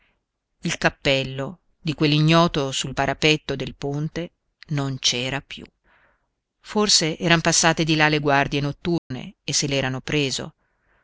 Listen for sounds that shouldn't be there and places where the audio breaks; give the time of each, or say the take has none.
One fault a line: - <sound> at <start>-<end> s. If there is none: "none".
- dropout at 9.0-9.1 s